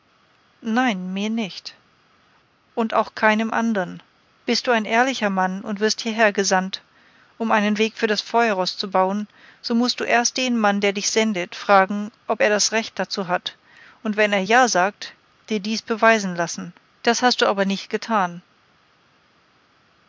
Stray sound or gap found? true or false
false